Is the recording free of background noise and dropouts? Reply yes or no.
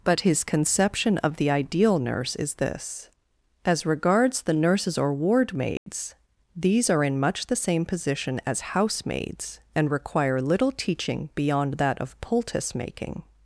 no